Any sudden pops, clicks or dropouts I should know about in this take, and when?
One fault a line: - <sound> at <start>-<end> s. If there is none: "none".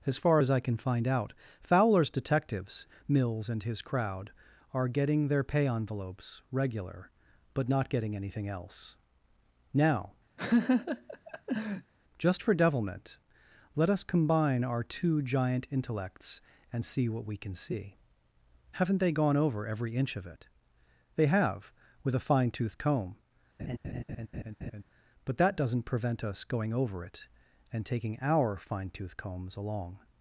- laugh at 10.4-11.9 s
- laugh at 23.6-24.8 s